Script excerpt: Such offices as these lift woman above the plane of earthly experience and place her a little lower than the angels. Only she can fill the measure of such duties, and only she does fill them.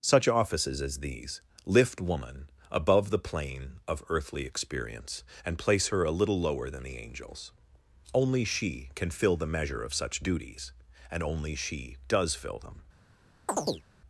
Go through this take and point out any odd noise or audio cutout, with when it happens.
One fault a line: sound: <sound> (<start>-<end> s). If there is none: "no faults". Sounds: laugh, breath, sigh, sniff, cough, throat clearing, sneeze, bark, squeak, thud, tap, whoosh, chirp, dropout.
sound: chirp (13.5-13.9 s)